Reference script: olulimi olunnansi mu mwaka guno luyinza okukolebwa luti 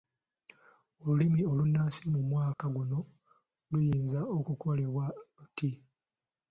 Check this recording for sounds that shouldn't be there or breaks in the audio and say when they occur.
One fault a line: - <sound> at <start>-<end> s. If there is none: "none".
- dropout at 2.5-2.6 s